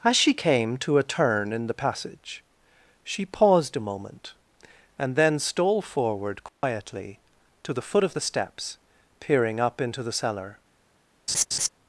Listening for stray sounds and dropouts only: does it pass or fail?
fail